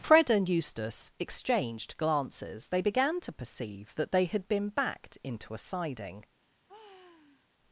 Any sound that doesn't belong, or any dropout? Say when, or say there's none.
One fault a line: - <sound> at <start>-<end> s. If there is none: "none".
- sigh at 6.7-7.5 s